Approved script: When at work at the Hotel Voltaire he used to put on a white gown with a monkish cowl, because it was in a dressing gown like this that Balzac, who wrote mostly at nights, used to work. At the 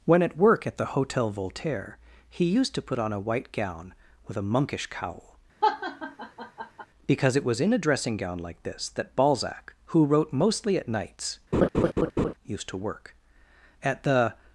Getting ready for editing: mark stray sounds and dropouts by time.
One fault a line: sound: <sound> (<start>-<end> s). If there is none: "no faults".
sound: laugh (5.6-6.9 s)
sound: laugh (11.5-12.3 s)